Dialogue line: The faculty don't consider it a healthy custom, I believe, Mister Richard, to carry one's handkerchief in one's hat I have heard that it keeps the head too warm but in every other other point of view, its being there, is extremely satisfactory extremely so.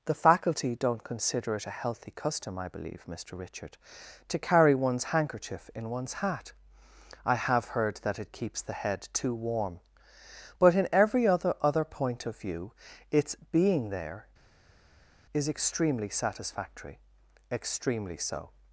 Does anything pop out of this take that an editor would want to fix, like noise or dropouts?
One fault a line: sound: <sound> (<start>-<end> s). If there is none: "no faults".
no faults